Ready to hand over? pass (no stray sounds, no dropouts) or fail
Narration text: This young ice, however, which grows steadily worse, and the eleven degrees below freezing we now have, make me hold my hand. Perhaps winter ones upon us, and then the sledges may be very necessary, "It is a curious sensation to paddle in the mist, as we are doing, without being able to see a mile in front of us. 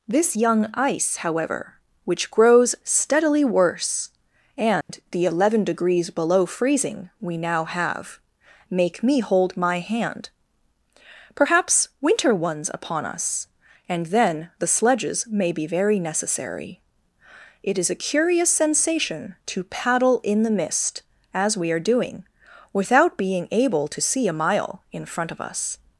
fail